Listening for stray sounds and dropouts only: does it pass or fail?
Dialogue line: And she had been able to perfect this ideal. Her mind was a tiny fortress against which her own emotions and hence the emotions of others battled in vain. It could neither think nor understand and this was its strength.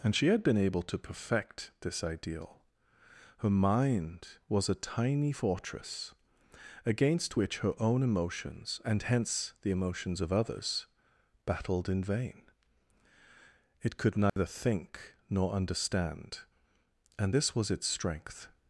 fail